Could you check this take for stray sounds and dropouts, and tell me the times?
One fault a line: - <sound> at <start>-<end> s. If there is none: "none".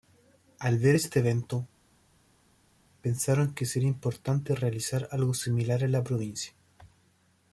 none